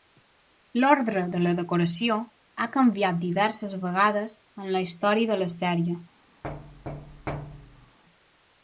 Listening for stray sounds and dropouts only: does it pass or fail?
fail